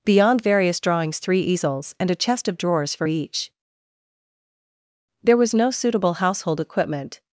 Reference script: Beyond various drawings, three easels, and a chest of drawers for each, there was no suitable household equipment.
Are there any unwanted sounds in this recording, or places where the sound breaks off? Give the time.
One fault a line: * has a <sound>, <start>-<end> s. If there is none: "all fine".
all fine